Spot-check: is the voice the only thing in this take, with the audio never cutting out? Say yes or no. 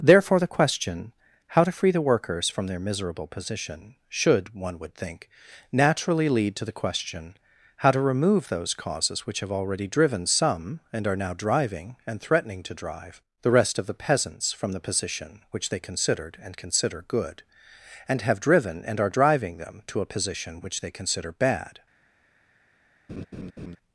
no